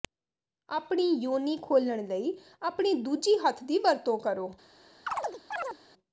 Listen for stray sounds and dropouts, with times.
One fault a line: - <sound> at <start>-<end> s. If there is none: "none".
- chirp at 5.1-5.8 s